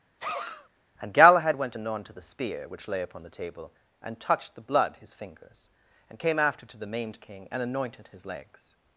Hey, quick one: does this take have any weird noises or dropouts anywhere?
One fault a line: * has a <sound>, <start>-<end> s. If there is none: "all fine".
* has a sneeze, 0.2-0.7 s